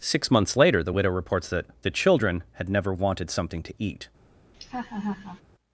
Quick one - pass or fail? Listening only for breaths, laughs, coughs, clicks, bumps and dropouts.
fail